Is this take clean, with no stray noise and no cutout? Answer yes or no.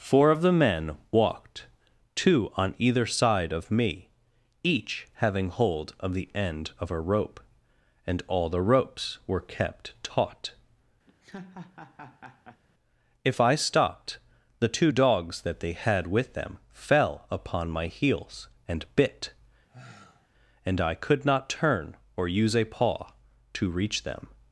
no